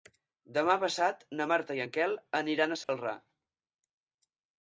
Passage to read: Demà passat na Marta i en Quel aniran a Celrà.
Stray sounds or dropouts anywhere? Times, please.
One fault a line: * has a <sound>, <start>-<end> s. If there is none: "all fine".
* has a dropout, 2.8-2.9 s